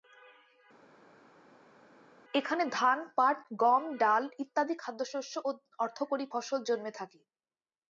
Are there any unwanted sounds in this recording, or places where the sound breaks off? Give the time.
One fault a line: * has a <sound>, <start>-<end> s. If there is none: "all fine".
all fine